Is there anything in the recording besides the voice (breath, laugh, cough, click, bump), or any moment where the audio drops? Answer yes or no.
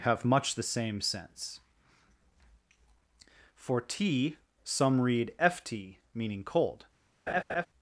yes